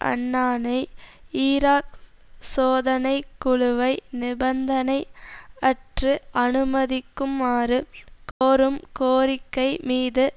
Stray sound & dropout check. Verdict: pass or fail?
fail